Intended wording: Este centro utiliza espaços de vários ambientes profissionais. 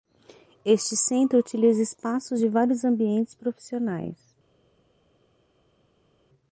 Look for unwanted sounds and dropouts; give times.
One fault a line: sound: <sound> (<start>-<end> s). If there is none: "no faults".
no faults